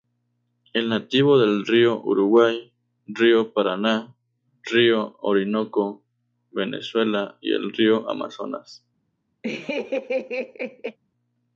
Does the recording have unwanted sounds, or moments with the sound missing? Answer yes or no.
yes